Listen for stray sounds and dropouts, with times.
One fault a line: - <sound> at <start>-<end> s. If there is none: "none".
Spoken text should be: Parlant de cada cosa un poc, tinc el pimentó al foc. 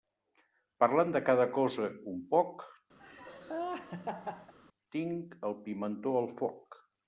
- laugh at 3.0-4.5 s